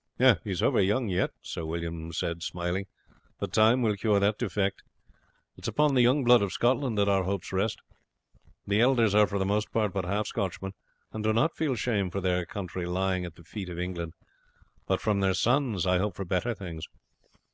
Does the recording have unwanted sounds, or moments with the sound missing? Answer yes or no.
no